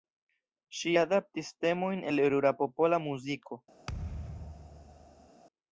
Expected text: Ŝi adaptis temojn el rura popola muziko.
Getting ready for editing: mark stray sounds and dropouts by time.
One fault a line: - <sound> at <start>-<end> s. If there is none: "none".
- thud at 3.9-5.3 s